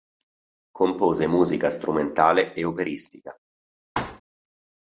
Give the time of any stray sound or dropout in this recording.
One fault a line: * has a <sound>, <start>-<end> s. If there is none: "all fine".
* has a thud, 4.0-4.2 s